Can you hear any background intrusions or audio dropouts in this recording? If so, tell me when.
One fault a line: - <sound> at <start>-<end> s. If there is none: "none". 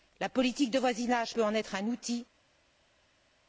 none